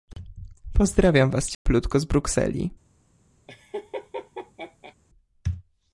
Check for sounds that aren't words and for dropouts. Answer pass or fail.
fail